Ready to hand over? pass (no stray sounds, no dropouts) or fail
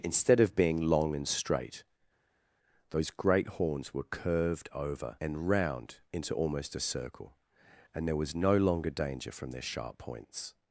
pass